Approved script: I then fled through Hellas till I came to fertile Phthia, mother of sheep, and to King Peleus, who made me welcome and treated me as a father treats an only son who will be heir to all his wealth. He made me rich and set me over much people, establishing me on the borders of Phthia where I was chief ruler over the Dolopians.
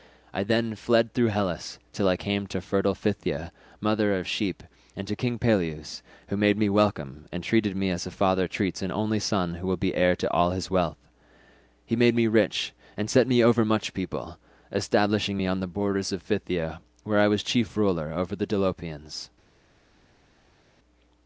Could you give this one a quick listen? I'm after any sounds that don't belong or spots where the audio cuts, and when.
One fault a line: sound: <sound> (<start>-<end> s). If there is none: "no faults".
no faults